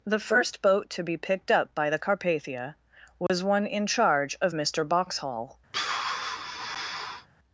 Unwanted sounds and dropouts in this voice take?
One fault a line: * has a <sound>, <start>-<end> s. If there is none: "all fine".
* has a dropout, 3.3-3.3 s
* has a sigh, 5.7-7.3 s